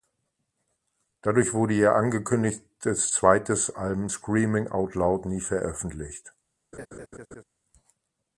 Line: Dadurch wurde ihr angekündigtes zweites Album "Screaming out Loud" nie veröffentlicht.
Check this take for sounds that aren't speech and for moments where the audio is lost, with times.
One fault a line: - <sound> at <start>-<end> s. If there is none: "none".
- laugh at 6.7-7.4 s